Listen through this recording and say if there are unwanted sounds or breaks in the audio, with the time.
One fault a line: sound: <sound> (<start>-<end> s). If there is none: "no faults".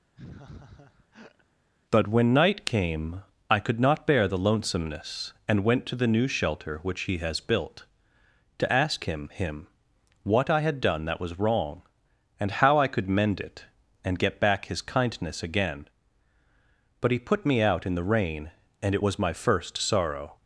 sound: laugh (0.2-1.5 s)